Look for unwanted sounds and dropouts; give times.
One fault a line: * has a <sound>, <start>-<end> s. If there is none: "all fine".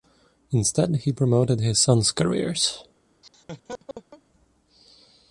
* has a laugh, 3.2-4.2 s